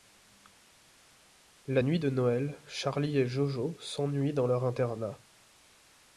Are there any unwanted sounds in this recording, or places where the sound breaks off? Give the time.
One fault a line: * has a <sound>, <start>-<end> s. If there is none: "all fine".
all fine